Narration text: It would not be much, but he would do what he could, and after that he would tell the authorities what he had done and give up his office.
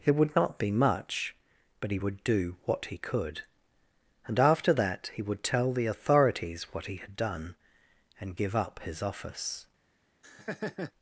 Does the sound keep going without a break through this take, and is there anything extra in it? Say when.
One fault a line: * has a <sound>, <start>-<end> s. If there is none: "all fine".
* has a laugh, 10.2-10.9 s